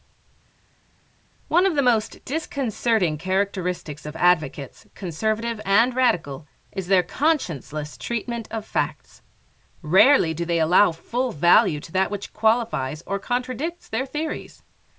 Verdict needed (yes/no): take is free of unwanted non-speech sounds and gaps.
yes